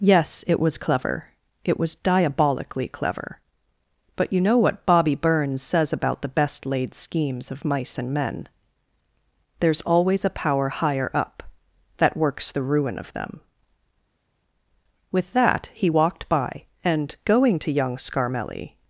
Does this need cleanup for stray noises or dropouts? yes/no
no